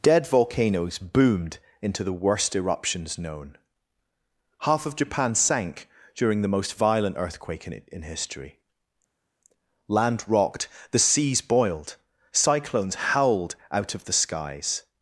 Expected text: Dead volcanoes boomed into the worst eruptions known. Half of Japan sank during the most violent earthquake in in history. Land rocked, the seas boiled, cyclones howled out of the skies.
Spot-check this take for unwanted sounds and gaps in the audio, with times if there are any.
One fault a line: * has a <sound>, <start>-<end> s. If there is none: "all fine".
all fine